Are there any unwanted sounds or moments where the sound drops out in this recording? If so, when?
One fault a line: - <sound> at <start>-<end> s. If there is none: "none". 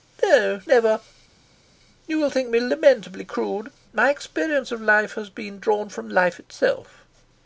none